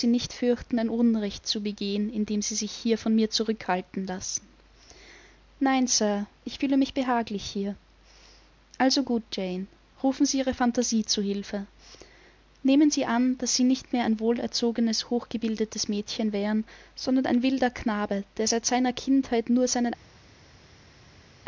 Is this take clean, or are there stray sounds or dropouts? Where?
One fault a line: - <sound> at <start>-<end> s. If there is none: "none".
none